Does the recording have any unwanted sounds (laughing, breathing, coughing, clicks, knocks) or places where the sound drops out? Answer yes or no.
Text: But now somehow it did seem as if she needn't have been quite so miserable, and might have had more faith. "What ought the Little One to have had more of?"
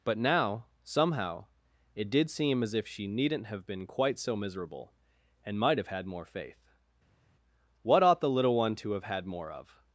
no